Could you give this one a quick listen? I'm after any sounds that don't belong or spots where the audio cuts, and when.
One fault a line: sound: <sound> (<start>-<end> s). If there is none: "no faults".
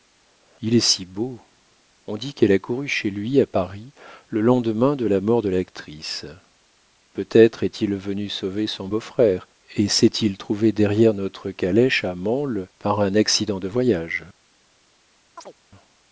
sound: chirp (15.4-15.5 s)